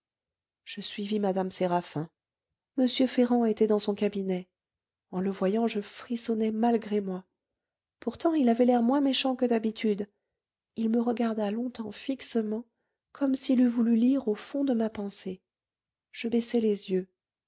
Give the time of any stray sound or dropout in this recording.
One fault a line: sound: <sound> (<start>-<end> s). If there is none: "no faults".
no faults